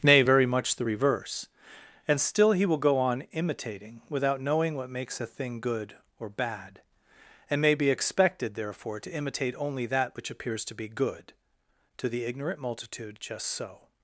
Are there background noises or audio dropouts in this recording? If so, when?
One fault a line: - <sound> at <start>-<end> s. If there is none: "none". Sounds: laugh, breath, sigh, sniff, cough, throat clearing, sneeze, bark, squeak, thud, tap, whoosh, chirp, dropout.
none